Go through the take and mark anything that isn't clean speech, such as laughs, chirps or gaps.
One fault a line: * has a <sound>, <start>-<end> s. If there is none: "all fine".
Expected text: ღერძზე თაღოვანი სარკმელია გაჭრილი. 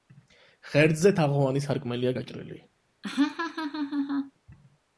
* has a laugh, 3.0-4.3 s